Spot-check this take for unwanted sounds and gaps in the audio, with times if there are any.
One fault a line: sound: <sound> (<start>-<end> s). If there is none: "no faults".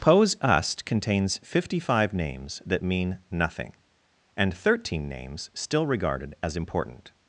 no faults